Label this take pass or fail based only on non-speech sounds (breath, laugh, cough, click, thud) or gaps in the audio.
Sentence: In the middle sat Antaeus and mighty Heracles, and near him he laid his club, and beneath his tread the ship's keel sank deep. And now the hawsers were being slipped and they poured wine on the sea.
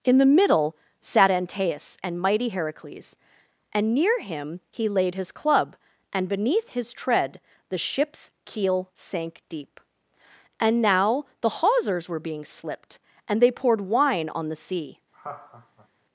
fail